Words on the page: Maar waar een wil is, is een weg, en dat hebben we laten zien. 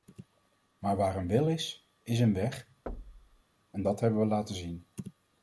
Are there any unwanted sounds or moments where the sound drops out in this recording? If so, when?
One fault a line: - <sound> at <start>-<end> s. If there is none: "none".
- thud at 2.9-3.4 s